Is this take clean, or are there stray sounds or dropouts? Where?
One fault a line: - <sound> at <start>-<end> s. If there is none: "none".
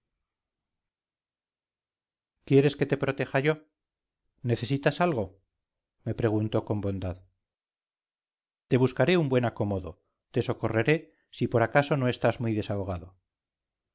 none